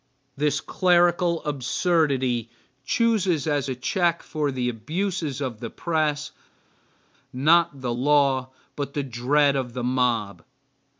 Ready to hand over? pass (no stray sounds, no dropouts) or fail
pass